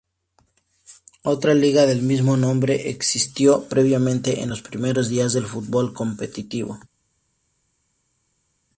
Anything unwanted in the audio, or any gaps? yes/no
no